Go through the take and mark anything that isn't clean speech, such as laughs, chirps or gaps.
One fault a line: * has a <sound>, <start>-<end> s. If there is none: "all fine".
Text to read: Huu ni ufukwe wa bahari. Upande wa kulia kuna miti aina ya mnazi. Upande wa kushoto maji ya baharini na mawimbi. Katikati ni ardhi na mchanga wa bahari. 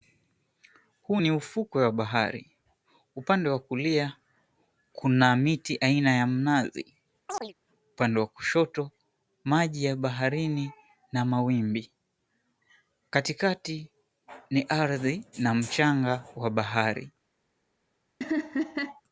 * has a chirp, 7.3-7.5 s
* has a laugh, 18.2-19.0 s